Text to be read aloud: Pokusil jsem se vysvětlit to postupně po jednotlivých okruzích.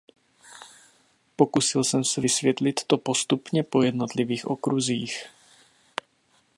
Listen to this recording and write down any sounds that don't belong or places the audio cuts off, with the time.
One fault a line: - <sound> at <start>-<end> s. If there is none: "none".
none